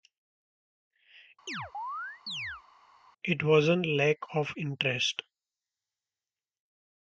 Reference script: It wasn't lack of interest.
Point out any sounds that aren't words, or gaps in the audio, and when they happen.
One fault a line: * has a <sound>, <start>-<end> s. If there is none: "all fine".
* has a chirp, 1.5-2.6 s